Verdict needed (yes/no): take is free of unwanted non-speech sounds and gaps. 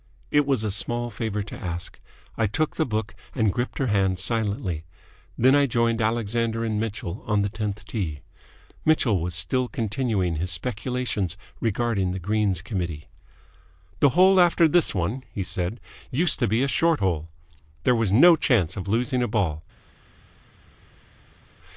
yes